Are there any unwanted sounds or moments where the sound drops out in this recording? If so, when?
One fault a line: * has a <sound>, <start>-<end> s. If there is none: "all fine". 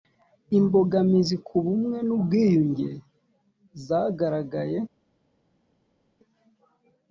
all fine